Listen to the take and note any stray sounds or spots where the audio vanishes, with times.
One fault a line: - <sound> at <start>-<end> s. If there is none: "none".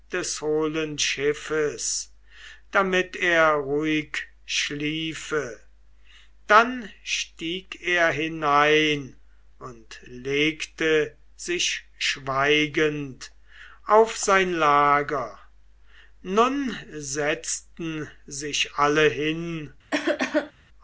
- cough at 19.9-20.5 s